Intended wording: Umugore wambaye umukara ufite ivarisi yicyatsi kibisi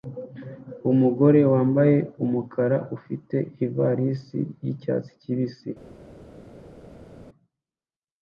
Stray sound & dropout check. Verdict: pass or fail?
pass